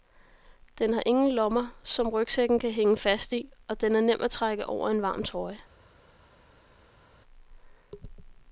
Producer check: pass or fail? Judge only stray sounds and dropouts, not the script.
pass